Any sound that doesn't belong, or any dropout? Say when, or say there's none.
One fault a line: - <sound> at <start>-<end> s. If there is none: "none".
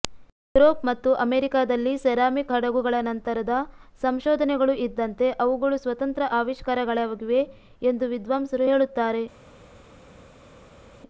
none